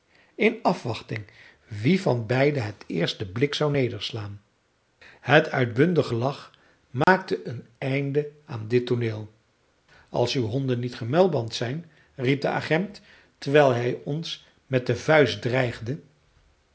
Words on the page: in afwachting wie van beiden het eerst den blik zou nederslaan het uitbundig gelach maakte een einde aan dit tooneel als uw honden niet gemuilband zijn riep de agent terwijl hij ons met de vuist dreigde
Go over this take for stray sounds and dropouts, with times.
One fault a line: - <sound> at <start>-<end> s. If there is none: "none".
- dropout at 7.0-7.1 s